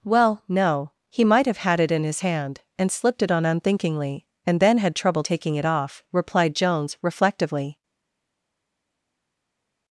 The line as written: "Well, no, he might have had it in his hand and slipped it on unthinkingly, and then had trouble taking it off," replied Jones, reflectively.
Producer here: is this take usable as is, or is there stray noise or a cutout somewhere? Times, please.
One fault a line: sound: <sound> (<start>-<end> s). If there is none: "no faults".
no faults